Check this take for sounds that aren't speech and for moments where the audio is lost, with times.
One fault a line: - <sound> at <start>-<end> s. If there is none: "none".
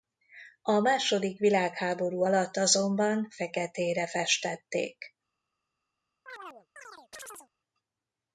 - chirp at 6.3-7.5 s